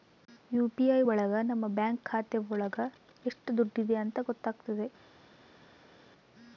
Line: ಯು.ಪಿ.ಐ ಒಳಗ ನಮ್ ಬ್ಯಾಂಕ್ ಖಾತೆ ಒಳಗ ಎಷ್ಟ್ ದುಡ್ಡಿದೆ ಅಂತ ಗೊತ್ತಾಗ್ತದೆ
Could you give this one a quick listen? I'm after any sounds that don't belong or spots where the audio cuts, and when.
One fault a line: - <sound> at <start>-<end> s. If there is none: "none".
none